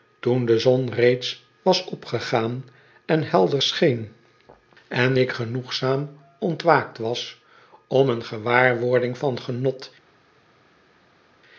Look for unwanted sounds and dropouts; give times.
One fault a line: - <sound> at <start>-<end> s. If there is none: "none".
none